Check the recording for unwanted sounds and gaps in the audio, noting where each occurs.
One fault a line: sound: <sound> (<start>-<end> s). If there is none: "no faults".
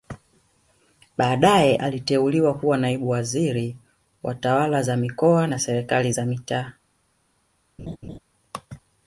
sound: laugh (7.8-8.2 s)